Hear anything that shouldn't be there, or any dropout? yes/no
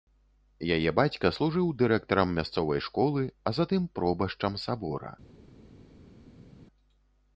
no